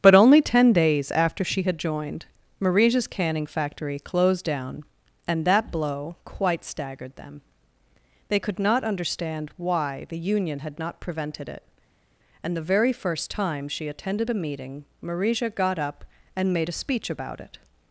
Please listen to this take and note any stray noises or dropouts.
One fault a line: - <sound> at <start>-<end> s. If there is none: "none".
none